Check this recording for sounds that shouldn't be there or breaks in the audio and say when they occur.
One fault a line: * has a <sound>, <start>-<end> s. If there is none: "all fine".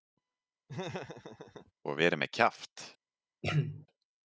* has a laugh, 0.7-1.7 s
* has a throat clearing, 3.4-3.9 s